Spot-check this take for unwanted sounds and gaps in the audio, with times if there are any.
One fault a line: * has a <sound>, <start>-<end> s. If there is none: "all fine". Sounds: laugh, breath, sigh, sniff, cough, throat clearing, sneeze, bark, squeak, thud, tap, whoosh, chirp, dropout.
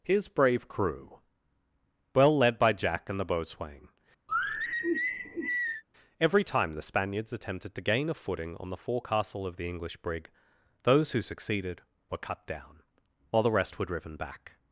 * has a sigh, 4.3-5.8 s